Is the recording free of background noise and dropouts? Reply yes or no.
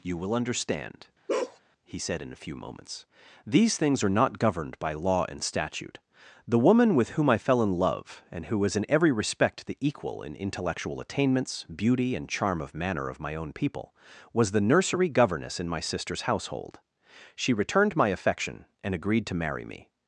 no